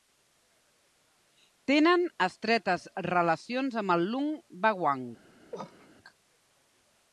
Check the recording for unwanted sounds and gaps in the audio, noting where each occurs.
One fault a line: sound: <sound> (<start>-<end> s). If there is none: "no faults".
sound: cough (5.5-5.9 s)